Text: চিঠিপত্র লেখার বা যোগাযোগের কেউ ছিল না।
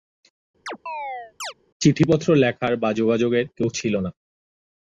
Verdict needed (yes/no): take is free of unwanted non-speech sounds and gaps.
no